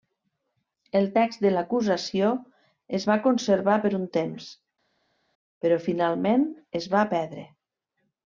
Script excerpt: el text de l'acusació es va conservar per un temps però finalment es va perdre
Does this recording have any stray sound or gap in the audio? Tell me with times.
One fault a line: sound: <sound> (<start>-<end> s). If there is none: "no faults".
no faults